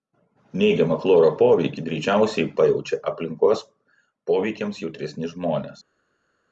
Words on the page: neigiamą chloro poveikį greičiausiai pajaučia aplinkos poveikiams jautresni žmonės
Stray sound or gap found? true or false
false